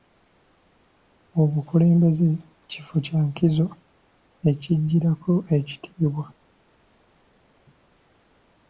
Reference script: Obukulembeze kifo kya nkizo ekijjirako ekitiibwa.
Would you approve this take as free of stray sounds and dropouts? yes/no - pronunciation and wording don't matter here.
yes